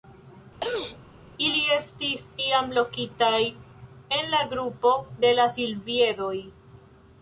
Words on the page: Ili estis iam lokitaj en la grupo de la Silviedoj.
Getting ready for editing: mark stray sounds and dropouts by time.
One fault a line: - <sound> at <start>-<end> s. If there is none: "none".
- throat clearing at 0.6-1.0 s